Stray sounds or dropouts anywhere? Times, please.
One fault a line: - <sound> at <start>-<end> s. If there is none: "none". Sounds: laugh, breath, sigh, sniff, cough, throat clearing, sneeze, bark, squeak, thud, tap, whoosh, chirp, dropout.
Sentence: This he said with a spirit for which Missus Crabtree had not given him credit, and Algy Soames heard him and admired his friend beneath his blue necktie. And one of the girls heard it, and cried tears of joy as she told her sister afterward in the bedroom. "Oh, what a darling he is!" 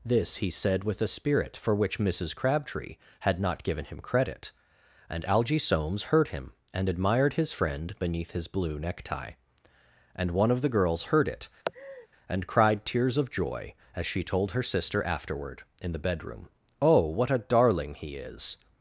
- laugh at 11.6-12.1 s